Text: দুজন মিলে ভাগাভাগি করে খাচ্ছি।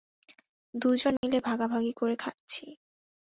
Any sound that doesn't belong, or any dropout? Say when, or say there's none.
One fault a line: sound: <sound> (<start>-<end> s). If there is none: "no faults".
sound: dropout (1.2-1.2 s)